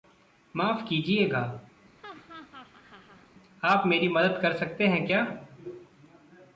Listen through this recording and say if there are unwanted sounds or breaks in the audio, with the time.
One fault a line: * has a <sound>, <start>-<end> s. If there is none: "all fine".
* has a laugh, 2.0-3.3 s